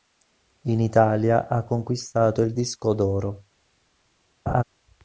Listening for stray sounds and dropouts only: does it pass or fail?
fail